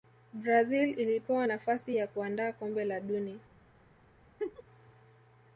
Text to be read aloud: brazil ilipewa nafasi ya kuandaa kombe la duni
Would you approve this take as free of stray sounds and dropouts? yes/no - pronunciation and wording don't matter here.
no